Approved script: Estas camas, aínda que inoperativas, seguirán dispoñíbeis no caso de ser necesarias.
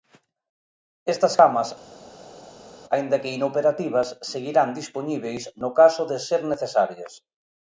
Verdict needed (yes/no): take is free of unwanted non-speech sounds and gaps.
yes